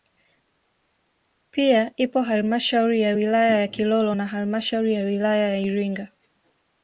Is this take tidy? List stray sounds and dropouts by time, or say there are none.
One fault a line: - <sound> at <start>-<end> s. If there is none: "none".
none